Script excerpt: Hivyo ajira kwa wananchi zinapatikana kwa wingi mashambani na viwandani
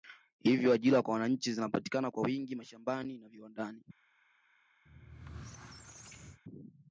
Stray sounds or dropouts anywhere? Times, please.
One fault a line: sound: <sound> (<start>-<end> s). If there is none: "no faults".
sound: squeak (4.9-6.4 s)